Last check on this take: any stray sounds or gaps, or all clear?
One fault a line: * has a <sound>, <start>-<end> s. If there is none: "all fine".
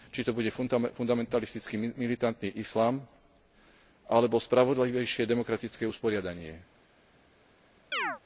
* has a chirp, 7.9-8.2 s